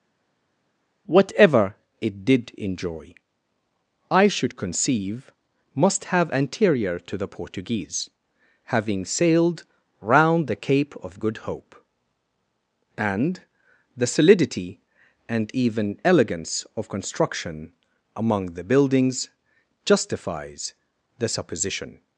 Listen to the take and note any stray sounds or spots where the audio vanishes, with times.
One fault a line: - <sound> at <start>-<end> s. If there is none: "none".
none